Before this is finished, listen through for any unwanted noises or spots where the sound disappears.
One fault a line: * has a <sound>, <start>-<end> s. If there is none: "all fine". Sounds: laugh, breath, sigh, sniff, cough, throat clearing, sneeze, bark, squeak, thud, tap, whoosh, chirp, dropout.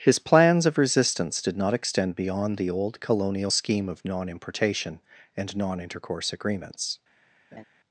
* has a laugh, 7.5-7.6 s